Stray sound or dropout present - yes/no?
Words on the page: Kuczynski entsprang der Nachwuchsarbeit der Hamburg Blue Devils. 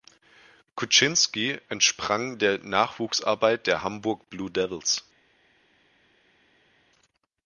no